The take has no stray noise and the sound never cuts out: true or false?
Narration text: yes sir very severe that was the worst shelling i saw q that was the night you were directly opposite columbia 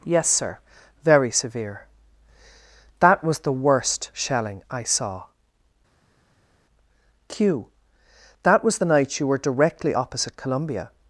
true